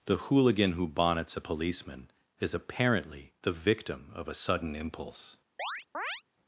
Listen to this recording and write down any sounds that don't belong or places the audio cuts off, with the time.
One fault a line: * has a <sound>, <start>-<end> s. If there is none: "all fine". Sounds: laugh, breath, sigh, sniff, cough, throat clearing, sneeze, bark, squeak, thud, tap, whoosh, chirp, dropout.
* has a chirp, 5.6-6.2 s